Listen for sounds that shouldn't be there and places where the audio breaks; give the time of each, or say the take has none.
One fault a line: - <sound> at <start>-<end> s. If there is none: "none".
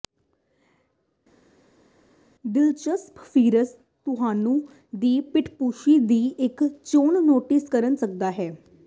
none